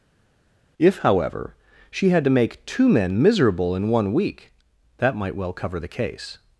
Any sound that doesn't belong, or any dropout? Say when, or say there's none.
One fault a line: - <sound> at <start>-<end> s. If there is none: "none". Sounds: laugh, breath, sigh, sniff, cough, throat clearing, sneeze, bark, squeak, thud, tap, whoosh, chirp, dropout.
none